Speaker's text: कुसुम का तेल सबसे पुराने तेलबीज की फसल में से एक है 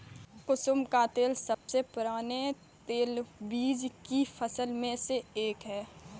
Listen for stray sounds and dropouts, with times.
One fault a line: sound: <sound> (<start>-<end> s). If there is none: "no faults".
sound: dropout (1.5-1.7 s)